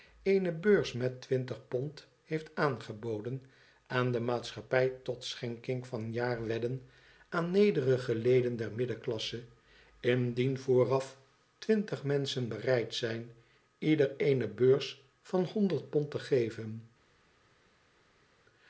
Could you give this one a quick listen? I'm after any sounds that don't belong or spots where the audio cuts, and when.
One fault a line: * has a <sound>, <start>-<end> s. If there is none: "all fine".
all fine